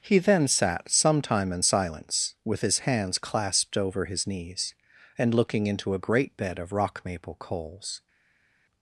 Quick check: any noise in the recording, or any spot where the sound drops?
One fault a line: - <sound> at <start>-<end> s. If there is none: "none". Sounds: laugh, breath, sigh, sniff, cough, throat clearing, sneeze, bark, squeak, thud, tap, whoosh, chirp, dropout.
none